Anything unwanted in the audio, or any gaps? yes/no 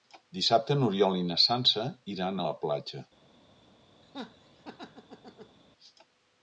yes